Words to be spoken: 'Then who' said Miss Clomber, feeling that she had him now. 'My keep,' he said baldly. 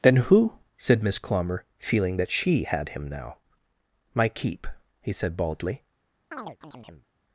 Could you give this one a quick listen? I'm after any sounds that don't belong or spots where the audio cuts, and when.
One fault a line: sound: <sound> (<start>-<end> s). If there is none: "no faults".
sound: chirp (6.3-7.1 s)